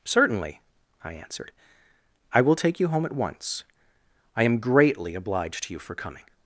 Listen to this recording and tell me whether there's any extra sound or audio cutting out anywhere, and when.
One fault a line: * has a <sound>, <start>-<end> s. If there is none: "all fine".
all fine